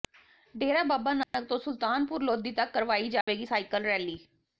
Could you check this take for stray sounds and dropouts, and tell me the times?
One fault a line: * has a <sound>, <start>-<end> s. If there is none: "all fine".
* has a dropout, 1.2-1.3 s
* has a dropout, 3.2-3.3 s